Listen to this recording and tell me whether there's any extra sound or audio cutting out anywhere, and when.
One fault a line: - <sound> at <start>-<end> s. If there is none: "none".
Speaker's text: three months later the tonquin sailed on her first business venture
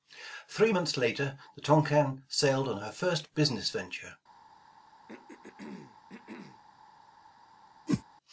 - throat clearing at 5.1-6.6 s
- whoosh at 7.9-8.0 s